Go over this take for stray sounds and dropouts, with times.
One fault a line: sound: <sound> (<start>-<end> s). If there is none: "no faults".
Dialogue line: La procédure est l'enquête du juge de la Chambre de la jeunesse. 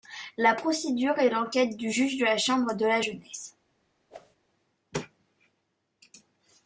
sound: whoosh (4.1-4.4 s)